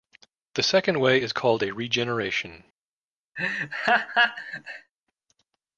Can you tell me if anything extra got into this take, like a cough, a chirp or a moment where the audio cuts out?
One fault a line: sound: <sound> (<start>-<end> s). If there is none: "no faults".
sound: laugh (3.4-4.9 s)